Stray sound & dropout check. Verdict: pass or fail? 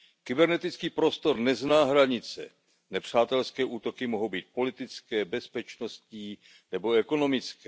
pass